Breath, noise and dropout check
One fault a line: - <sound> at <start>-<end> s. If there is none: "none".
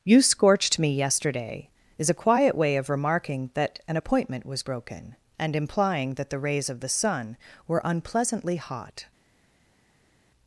none